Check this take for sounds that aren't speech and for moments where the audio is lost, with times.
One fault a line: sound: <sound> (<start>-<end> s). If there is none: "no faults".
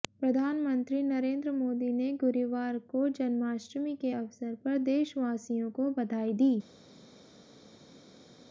no faults